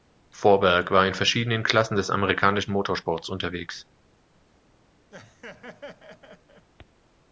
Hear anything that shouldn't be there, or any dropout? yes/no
yes